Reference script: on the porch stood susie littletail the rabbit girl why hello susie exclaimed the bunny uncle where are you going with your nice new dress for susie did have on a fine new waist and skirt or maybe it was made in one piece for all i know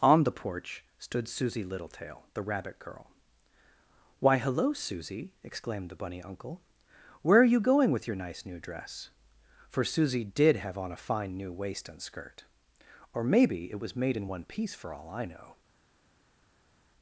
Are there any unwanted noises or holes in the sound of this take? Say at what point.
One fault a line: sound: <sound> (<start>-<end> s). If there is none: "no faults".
no faults